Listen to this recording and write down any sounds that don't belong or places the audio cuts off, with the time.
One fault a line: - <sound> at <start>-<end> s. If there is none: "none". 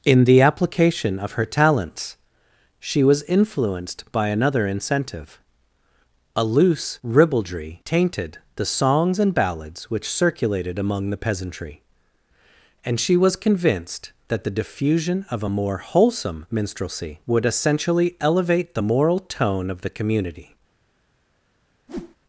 - whoosh at 21.9-22.2 s